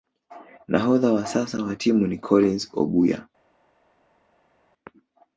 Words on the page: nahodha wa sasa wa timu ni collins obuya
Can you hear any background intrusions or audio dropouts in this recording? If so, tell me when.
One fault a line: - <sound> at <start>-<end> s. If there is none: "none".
none